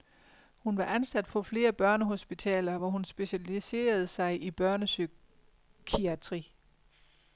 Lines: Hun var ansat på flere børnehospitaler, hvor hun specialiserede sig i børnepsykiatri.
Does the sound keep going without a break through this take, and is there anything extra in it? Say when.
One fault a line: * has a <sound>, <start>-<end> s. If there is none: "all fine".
all fine